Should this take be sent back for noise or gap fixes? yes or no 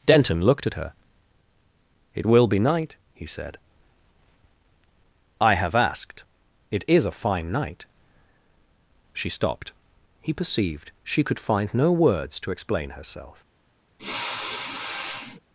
yes